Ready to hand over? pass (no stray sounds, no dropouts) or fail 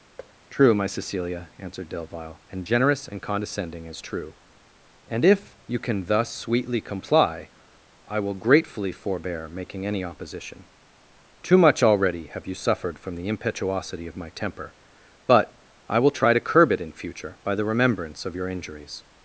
fail